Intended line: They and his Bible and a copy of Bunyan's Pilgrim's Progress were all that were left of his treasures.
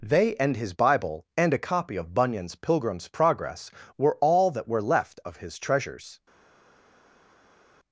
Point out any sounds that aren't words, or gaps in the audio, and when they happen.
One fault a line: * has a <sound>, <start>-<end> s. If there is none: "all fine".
all fine